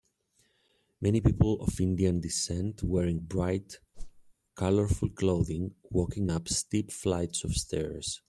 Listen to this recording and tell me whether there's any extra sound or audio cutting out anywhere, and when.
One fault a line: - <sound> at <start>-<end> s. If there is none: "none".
- whoosh at 3.9-4.3 s